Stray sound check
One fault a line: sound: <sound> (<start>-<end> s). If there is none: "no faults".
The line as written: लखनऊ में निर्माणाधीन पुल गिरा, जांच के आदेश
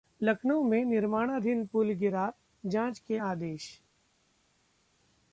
no faults